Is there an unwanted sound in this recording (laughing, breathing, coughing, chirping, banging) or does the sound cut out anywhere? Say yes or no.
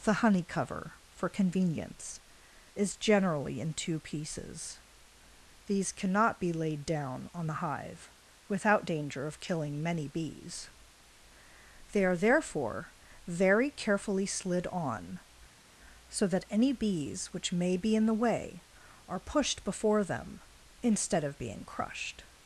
no